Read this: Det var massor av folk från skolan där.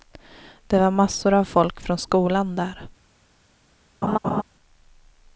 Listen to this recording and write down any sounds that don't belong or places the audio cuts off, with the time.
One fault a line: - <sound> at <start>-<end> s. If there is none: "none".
- laugh at 4.0-4.4 s